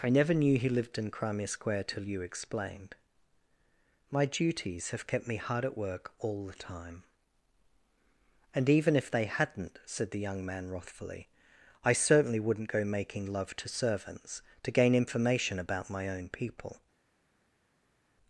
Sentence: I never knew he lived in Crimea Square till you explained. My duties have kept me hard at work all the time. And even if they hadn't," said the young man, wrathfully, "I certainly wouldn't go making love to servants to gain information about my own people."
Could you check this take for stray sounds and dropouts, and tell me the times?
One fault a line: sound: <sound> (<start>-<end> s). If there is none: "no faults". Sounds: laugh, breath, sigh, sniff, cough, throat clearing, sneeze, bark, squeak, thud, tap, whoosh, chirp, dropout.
no faults